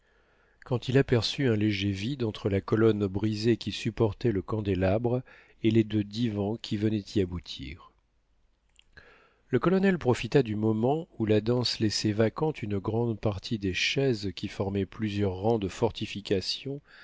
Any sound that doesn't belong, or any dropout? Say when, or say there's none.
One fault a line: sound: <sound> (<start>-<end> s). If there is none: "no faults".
no faults